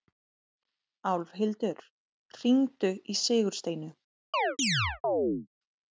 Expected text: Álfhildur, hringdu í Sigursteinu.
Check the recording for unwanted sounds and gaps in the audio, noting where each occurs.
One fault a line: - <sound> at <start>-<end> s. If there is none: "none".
- chirp at 4.3-5.5 s